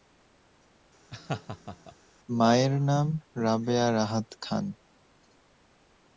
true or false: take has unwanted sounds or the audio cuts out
true